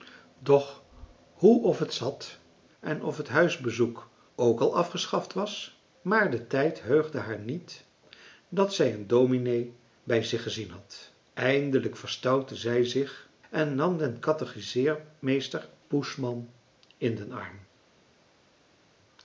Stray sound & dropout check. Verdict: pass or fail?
pass